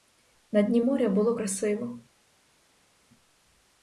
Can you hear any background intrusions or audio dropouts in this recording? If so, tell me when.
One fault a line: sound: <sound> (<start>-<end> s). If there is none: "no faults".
no faults